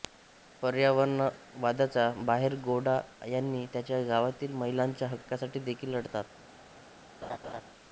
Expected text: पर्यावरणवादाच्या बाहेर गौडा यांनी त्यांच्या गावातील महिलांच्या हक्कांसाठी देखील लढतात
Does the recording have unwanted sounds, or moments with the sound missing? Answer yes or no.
yes